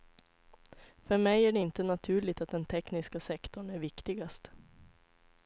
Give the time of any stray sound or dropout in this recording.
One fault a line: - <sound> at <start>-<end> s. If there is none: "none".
none